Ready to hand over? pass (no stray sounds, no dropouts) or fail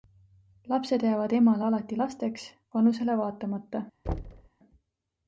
fail